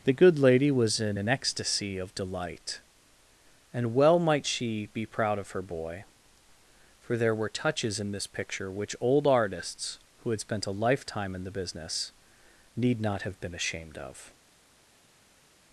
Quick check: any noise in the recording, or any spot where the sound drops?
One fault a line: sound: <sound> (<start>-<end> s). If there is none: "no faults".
no faults